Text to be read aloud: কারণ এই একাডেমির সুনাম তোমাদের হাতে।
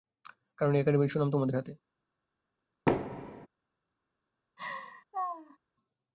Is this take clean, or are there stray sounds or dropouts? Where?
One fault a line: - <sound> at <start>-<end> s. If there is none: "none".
- thud at 2.9-3.5 s
- laugh at 4.6-5.6 s